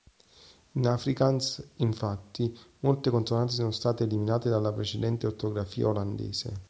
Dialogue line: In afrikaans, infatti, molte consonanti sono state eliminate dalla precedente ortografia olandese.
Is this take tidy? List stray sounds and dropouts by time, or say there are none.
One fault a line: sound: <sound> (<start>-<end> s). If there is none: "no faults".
no faults